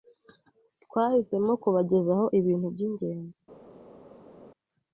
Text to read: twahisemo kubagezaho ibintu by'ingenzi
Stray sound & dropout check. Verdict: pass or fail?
pass